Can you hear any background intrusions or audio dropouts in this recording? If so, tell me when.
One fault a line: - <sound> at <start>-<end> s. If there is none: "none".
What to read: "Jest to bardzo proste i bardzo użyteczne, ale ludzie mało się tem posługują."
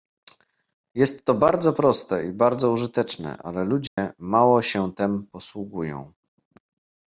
- dropout at 3.9-4.0 s